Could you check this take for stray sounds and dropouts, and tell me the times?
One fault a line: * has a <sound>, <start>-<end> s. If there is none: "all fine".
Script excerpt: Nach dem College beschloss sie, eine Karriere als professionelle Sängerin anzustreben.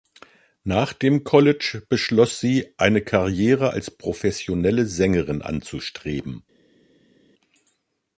all fine